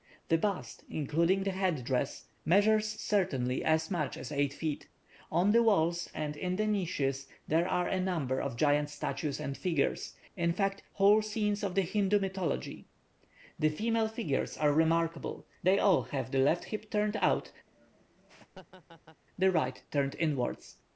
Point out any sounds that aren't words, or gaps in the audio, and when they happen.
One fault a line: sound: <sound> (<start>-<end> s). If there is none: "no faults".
sound: laugh (17.7-19.2 s)